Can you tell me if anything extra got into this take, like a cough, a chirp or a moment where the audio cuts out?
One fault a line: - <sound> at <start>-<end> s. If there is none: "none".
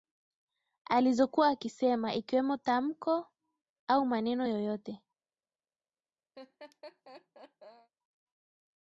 - laugh at 6.3-7.9 s